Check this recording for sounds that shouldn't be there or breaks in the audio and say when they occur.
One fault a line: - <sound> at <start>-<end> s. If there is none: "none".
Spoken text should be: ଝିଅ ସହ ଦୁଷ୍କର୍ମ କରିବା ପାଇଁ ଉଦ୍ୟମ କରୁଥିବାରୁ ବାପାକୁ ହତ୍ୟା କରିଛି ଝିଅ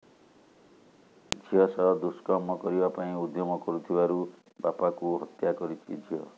none